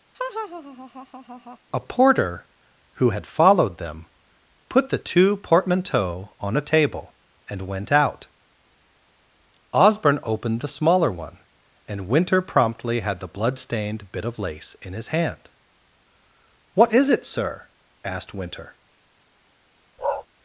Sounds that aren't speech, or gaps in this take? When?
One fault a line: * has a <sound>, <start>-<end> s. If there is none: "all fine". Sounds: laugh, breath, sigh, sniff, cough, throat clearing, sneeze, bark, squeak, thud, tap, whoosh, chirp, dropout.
* has a laugh, 0.1-1.6 s
* has a bark, 20.0-20.3 s